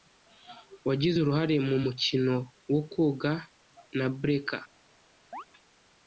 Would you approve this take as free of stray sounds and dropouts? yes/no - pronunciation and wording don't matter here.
no